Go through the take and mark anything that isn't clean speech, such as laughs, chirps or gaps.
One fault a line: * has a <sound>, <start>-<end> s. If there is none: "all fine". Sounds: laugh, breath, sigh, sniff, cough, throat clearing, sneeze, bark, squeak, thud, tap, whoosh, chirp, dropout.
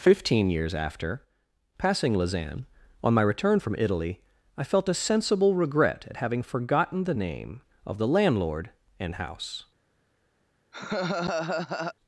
* has a laugh, 10.7-11.9 s